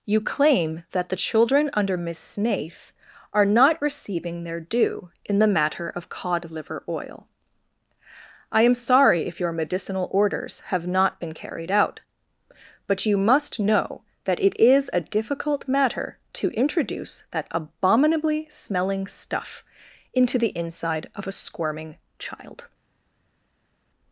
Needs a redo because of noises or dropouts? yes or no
no